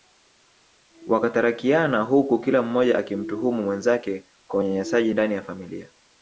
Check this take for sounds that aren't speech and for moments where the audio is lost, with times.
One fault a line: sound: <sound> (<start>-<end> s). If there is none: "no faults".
no faults